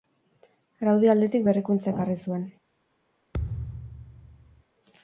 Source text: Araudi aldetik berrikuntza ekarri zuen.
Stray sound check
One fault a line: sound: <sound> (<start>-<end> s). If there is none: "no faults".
sound: thud (3.3-4.6 s)